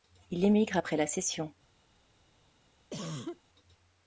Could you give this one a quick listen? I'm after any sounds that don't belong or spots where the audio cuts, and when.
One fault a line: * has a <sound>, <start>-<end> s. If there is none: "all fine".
* has a cough, 2.9-3.4 s